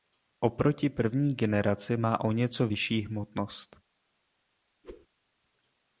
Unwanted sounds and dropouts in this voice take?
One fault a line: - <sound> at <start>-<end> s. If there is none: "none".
- whoosh at 4.8-5.1 s